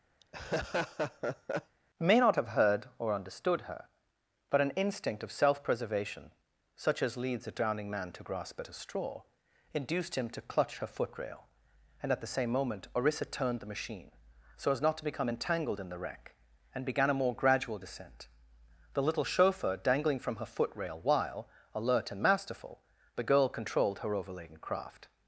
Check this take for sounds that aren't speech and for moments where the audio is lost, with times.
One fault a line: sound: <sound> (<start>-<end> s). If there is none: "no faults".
sound: laugh (0.2-1.8 s)